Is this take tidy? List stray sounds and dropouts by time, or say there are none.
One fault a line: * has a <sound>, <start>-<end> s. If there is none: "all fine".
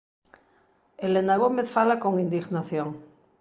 all fine